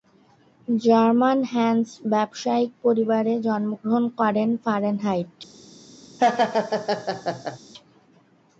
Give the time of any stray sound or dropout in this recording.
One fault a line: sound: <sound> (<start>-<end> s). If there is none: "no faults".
sound: laugh (6.2-7.6 s)